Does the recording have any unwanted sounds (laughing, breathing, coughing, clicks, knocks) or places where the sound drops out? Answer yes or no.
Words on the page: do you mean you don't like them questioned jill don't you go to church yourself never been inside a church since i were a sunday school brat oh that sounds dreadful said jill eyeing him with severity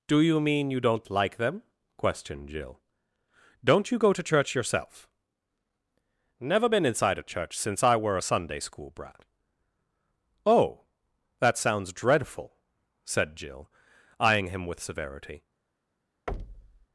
yes